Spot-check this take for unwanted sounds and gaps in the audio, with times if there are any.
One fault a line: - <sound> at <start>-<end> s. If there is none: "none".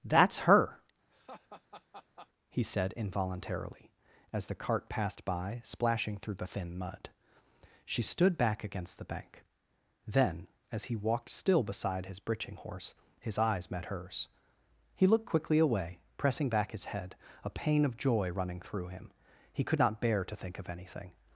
- laugh at 1.1-2.3 s